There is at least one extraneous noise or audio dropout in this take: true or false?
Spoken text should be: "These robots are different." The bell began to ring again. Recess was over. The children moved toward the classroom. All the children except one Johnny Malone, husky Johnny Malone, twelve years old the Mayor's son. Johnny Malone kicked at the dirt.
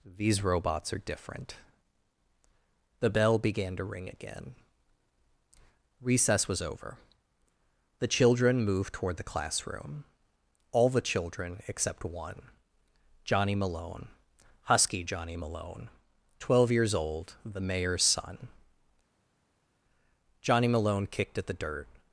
false